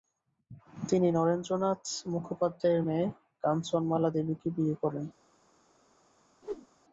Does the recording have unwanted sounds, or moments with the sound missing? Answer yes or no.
yes